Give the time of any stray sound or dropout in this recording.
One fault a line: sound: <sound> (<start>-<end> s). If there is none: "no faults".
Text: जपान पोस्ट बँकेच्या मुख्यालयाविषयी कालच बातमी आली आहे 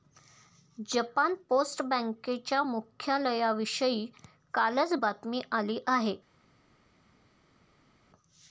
no faults